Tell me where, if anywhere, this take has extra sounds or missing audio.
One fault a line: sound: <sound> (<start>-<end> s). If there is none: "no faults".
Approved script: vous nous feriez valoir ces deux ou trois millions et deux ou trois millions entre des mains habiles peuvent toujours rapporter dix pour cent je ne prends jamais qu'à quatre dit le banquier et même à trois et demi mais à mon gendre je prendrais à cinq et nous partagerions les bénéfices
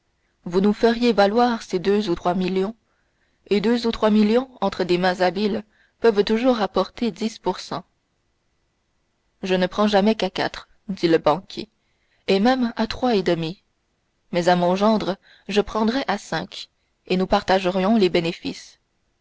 no faults